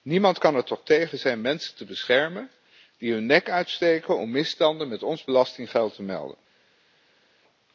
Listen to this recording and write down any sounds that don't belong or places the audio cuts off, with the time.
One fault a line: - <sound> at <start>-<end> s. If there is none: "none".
none